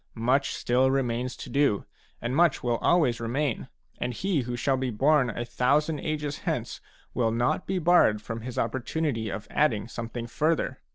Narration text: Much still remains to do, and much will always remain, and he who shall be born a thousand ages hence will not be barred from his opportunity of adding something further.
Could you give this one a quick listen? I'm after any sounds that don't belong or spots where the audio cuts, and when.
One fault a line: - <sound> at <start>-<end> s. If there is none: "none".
none